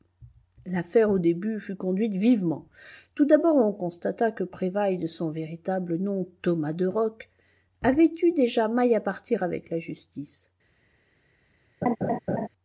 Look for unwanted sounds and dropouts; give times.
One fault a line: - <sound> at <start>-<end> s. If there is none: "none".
- laugh at 11.8-12.5 s